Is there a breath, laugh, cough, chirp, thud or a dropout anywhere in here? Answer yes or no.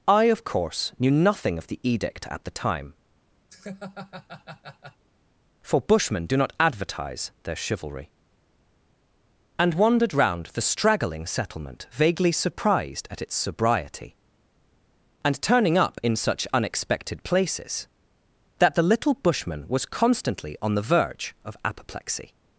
yes